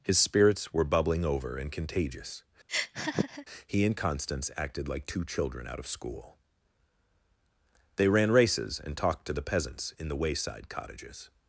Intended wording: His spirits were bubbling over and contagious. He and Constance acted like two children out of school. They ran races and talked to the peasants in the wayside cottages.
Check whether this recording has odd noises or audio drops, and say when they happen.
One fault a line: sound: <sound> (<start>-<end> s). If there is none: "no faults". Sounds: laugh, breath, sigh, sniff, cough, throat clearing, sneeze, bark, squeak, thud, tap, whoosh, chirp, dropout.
sound: laugh (2.7-3.5 s)